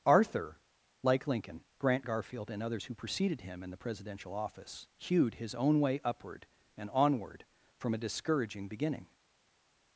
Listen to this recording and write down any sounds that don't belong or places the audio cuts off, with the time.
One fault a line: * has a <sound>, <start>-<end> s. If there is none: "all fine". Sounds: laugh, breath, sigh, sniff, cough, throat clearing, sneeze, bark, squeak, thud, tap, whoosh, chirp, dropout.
all fine